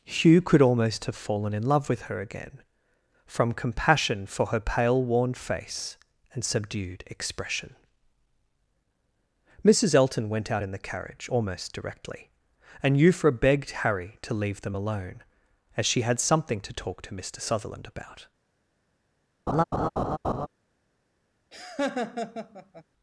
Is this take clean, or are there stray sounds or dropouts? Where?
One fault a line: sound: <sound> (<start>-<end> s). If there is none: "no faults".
sound: laugh (19.5-20.5 s)
sound: laugh (21.5-22.8 s)